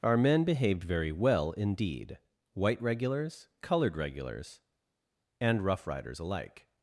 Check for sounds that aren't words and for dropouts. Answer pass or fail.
pass